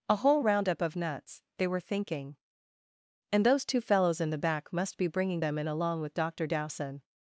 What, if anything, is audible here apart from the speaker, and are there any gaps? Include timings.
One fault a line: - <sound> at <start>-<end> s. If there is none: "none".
none